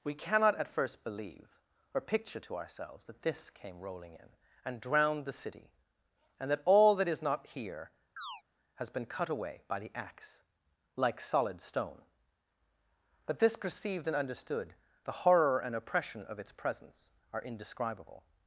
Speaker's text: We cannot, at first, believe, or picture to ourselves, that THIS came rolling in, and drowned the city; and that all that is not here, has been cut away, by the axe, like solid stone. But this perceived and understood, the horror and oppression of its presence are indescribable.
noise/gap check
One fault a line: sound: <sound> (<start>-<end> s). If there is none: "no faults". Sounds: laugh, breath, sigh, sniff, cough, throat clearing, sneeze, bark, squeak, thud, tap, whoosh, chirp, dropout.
sound: chirp (8.2-8.4 s)